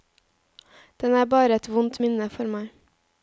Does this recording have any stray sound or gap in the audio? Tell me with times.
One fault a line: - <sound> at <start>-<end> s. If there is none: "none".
none